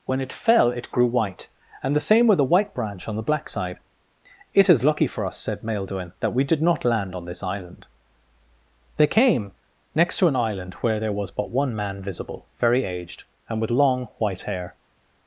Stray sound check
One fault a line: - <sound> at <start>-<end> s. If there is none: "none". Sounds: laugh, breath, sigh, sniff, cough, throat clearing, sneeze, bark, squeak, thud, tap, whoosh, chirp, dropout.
none